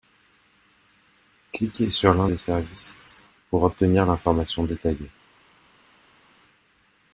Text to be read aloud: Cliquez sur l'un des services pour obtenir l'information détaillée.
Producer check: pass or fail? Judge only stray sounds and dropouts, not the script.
pass